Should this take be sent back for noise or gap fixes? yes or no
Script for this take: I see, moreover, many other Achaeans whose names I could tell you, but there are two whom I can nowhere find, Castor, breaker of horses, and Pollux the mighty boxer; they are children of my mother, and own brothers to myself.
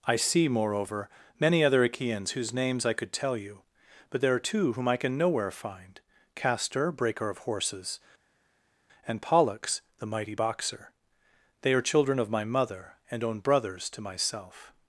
no